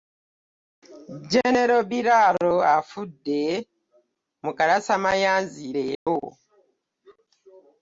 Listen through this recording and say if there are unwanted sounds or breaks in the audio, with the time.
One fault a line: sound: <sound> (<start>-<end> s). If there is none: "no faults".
sound: dropout (5.9-6.1 s)